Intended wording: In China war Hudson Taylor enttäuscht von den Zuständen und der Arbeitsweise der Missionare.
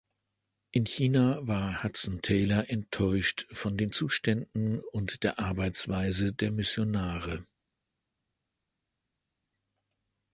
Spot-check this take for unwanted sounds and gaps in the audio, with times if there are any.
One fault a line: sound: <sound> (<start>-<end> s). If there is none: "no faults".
no faults